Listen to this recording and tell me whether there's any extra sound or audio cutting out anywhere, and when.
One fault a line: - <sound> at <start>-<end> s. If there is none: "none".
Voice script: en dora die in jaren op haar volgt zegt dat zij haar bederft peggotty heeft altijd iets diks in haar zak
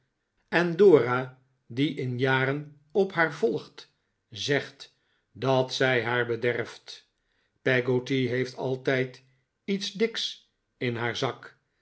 none